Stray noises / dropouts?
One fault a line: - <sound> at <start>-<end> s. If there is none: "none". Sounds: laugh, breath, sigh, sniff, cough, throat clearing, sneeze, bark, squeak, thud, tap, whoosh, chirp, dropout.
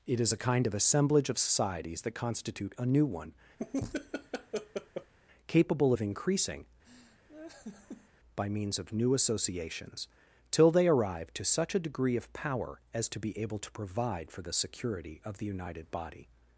- laugh at 3.6-5.1 s
- laugh at 6.8-8.1 s